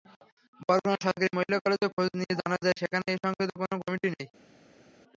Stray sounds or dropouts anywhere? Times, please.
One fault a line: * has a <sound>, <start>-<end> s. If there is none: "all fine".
all fine